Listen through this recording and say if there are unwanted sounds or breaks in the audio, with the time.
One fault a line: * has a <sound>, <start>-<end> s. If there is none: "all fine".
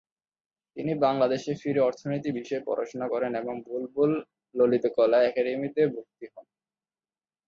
all fine